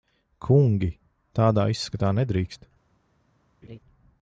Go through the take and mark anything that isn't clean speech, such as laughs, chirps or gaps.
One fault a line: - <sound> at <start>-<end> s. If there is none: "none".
- laugh at 3.6-3.8 s